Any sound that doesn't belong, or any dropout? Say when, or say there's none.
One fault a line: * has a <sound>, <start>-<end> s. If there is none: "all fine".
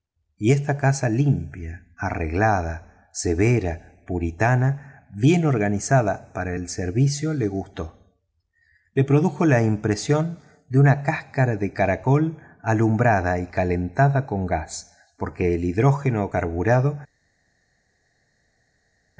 all fine